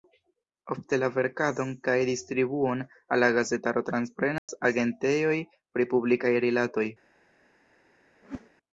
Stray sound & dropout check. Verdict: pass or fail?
fail